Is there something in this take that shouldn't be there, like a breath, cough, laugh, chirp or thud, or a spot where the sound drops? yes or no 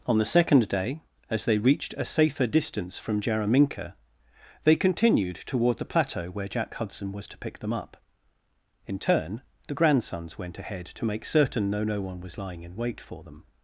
no